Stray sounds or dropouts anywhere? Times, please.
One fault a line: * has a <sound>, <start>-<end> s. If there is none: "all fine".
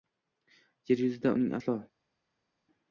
all fine